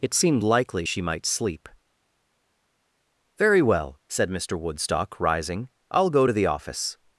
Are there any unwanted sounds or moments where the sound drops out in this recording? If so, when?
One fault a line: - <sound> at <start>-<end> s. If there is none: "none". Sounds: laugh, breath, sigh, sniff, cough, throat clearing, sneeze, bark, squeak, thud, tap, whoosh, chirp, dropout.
none